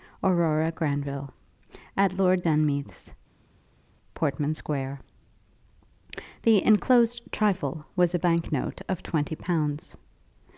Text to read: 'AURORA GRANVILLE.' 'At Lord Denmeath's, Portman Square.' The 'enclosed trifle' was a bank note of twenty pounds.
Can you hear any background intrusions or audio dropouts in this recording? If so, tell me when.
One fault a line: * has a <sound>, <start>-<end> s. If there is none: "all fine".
all fine